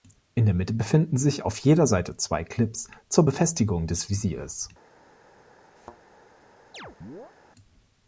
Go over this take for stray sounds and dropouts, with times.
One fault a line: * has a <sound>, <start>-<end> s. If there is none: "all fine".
* has a thud, 5.8-6.0 s
* has a chirp, 6.7-7.3 s